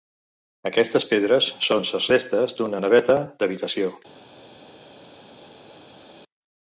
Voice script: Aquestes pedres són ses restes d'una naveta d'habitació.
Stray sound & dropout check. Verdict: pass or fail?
pass